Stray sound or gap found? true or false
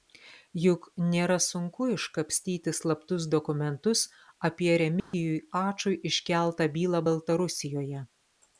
true